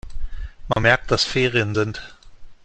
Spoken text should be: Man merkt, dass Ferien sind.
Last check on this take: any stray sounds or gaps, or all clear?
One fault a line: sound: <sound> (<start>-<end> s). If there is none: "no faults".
sound: dropout (0.7-0.8 s)